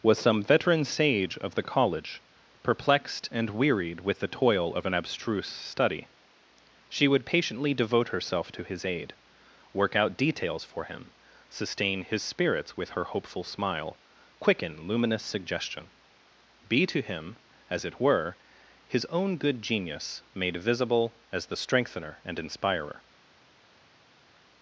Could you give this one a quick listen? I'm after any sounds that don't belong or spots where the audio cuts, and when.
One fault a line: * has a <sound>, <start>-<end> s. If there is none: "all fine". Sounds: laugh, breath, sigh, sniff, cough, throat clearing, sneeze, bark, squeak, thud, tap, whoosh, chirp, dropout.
all fine